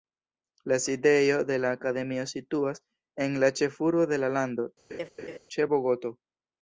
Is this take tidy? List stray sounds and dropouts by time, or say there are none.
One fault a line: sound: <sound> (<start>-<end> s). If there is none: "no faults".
sound: laugh (4.9-5.4 s)